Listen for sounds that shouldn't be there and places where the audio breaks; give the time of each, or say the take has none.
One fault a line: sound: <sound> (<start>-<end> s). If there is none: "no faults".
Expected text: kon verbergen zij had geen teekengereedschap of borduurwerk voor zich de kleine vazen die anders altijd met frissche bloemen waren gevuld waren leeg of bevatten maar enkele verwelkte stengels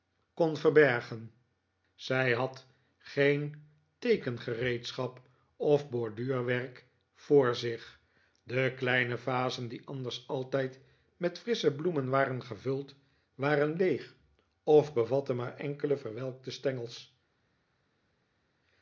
no faults